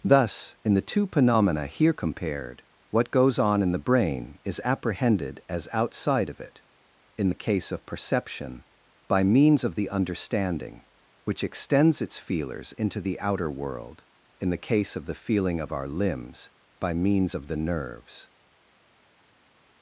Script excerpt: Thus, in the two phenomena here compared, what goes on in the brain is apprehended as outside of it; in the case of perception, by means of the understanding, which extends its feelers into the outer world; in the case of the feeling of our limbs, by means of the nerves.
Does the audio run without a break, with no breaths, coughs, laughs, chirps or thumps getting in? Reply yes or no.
yes